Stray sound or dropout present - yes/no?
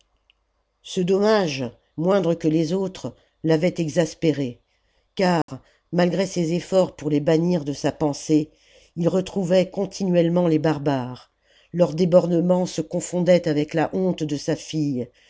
yes